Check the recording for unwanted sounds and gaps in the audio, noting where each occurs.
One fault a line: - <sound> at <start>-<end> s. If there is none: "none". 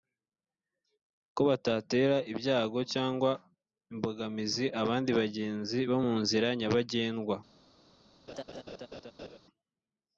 - laugh at 8.3-9.4 s